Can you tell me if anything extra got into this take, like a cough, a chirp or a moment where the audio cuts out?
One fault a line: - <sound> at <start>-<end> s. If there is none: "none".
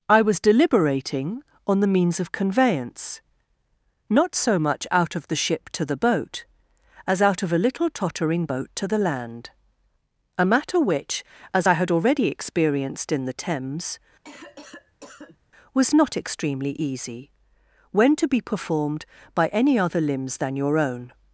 - cough at 14.2-15.4 s